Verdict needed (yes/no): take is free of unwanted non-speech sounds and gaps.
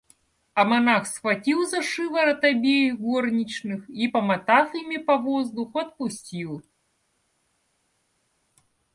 yes